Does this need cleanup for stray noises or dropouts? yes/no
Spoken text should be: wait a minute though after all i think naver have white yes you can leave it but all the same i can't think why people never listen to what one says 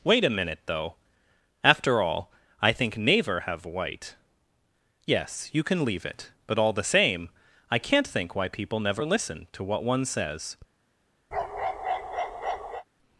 yes